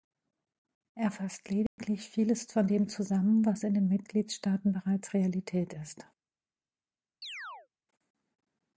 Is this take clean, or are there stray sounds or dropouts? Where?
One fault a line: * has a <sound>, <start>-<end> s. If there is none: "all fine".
* has a dropout, 1.7-1.8 s
* has a chirp, 7.2-7.7 s